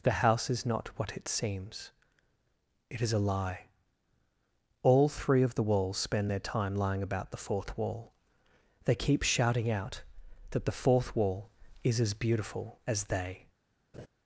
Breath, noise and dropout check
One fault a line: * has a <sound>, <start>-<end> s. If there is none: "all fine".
* has a laugh, 13.9-14.1 s